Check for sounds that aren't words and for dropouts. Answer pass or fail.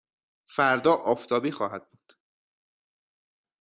pass